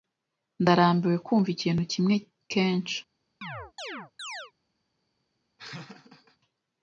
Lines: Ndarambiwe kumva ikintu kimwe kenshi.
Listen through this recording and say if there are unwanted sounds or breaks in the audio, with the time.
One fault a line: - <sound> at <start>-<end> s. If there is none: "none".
- chirp at 3.4-4.5 s
- laugh at 5.6-6.4 s